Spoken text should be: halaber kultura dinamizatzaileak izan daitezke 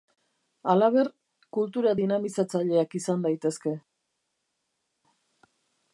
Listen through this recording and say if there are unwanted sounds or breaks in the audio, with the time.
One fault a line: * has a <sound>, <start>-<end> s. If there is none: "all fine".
all fine